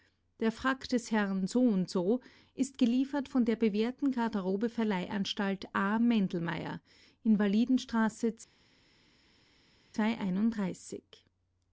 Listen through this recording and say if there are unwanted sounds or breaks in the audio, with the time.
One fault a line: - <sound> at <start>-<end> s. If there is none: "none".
none